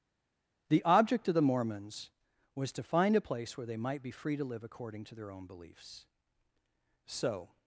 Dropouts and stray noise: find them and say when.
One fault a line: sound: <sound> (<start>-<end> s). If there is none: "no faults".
no faults